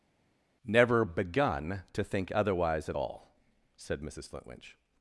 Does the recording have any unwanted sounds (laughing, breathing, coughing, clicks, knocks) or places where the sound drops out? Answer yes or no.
no